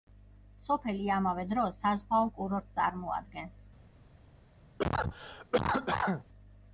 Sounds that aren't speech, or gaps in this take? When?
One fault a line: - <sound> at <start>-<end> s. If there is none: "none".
- cough at 4.8-6.2 s